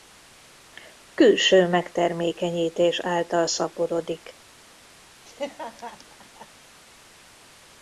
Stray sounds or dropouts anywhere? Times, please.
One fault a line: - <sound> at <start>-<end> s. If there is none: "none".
- laugh at 5.2-6.5 s